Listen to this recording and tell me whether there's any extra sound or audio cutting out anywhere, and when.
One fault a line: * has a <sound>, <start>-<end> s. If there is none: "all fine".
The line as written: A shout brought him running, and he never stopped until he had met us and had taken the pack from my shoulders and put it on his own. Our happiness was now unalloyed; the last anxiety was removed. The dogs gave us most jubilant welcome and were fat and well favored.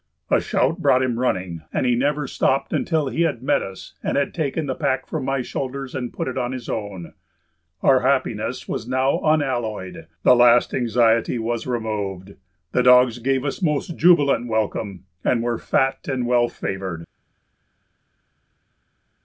all fine